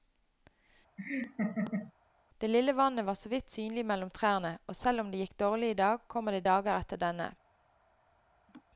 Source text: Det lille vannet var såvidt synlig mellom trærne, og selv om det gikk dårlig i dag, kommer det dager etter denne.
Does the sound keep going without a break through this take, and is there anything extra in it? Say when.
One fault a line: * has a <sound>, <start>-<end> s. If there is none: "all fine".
* has a laugh, 1.0-1.9 s
* has a laugh, 8.5-8.6 s